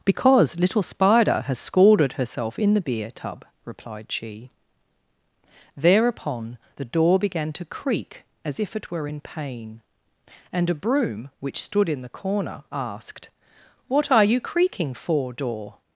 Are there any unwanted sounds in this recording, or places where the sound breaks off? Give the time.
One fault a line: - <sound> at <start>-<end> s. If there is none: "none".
none